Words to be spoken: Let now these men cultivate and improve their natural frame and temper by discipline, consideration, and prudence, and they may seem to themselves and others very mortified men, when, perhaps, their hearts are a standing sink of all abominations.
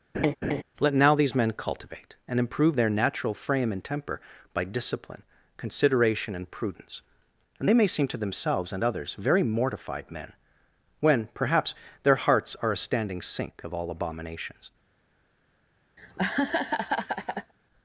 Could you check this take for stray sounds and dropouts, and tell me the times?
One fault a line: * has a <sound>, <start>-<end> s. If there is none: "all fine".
* has a laugh, 0.1-0.6 s
* has a laugh, 16.0-17.5 s